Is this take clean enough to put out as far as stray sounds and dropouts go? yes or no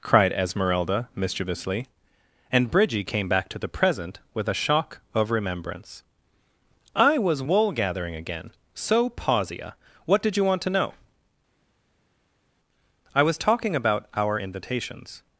yes